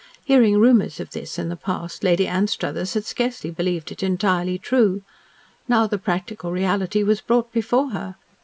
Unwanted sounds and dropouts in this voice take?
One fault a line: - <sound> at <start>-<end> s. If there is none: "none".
none